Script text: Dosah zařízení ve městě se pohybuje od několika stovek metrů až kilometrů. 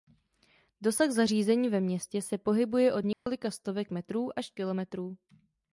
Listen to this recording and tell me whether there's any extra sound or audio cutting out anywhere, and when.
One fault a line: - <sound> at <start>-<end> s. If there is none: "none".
- dropout at 3.1-3.3 s